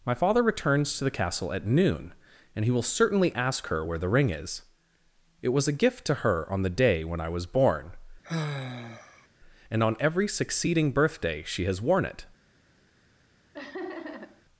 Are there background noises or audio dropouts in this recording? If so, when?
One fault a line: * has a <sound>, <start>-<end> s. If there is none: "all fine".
* has a sigh, 8.2-9.3 s
* has a laugh, 13.5-14.4 s